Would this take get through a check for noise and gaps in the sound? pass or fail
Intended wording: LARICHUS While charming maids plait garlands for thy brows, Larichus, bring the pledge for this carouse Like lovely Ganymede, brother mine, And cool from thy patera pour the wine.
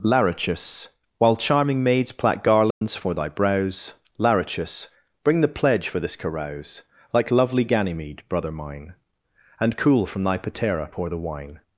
fail